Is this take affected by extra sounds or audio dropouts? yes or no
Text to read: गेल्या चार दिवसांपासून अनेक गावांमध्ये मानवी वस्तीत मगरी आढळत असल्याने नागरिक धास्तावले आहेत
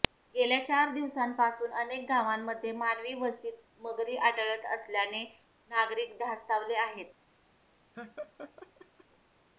yes